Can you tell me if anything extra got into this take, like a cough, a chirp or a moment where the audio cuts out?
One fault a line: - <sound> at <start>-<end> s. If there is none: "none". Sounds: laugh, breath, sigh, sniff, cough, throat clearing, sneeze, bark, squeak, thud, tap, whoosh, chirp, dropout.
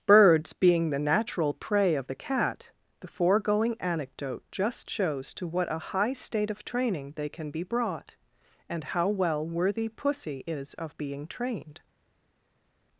none